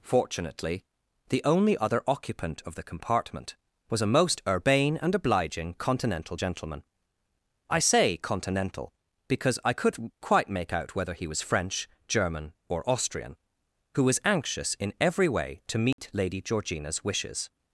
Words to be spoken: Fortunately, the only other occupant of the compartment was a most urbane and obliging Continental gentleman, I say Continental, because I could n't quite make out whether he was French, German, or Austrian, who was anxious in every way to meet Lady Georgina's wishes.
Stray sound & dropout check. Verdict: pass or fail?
fail